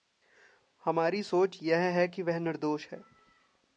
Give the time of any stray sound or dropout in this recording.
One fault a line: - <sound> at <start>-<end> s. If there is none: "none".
none